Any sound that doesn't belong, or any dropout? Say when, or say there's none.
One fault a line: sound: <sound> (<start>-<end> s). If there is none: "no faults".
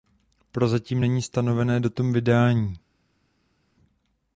no faults